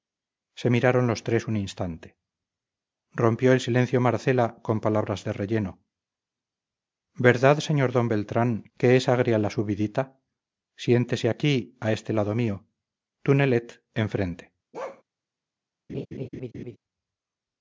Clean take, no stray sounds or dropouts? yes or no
no